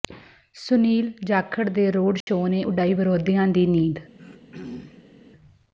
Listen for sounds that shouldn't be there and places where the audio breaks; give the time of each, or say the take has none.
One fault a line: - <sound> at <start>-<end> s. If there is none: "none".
- dropout at 2.2-2.3 s
- throat clearing at 4.2-5.2 s